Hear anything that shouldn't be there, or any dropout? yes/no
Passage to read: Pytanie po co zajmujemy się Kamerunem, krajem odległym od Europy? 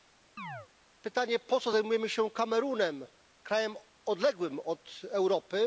yes